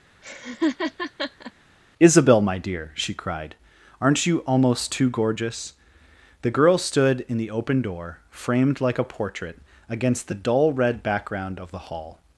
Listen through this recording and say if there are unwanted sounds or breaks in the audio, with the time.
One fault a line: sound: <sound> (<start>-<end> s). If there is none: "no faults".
sound: laugh (0.2-1.5 s)